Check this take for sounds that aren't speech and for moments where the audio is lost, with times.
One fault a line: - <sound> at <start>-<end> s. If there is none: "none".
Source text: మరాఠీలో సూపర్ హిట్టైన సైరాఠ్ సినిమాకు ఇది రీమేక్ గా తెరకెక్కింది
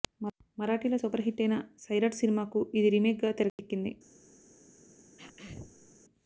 - dropout at 3.5-3.6 s
- throat clearing at 5.2-5.9 s